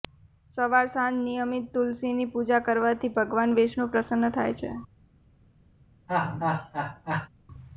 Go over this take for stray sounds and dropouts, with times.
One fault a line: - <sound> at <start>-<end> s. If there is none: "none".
- laugh at 6.1-7.3 s